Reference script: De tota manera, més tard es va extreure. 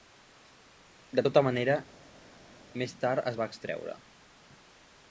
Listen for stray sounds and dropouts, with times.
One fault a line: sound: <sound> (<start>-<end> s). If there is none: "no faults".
no faults